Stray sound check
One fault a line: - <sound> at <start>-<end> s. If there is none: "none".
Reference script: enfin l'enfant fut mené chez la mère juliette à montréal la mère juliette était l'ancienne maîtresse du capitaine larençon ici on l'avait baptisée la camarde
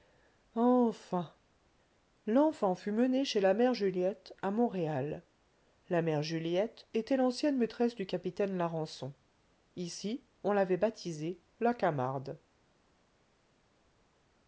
none